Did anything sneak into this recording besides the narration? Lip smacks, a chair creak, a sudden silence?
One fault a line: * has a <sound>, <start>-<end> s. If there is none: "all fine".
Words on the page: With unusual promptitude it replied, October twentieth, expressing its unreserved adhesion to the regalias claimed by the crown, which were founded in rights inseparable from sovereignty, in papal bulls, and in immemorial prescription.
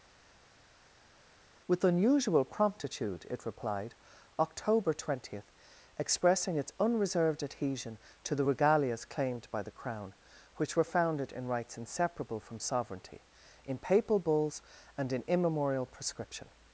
all fine